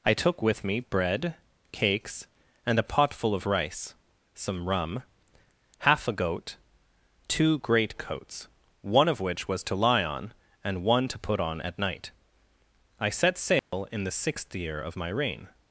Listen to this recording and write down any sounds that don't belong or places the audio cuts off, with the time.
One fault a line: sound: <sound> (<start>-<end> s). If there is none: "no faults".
sound: dropout (13.6-13.7 s)